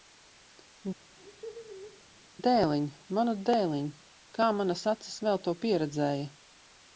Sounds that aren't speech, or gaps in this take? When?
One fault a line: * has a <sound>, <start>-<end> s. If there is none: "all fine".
* has a laugh, 1.1-2.0 s